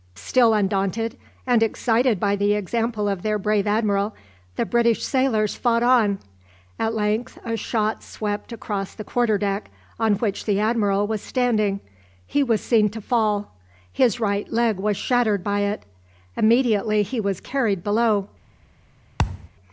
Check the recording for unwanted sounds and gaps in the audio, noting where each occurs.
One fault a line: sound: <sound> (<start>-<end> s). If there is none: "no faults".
sound: thud (19.2-19.5 s)